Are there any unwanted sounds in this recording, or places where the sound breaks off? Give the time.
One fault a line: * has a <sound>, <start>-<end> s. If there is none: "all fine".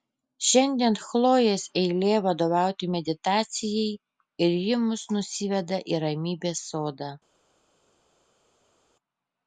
all fine